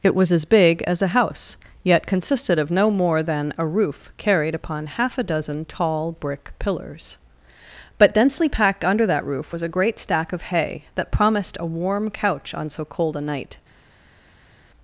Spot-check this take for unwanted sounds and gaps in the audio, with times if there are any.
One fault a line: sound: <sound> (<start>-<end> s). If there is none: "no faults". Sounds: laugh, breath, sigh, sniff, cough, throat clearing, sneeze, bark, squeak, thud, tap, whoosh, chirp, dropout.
no faults